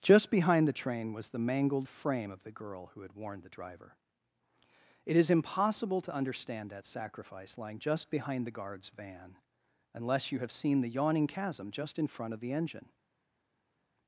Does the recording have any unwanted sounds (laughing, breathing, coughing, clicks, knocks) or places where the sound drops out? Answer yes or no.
no